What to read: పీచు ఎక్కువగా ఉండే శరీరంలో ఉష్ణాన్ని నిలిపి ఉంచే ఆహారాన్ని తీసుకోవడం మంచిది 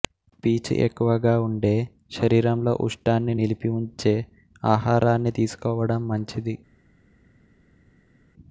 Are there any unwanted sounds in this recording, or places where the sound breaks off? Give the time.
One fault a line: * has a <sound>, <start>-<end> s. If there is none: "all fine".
all fine